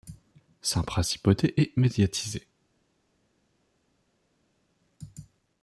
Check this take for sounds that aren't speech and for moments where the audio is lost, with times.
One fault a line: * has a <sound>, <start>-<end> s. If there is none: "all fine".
all fine